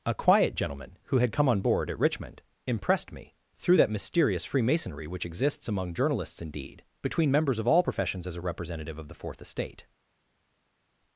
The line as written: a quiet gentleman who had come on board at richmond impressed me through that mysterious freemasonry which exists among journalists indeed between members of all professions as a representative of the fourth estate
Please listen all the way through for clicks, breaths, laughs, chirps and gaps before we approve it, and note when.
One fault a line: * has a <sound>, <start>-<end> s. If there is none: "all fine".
all fine